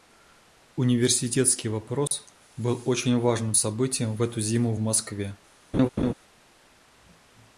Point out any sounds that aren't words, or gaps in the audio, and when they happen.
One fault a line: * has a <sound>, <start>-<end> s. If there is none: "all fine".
* has a dropout, 2.1-2.1 s
* has a laugh, 5.7-6.1 s